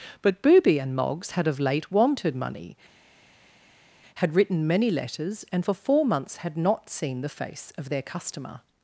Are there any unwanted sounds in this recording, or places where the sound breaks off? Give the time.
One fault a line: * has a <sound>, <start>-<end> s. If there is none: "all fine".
all fine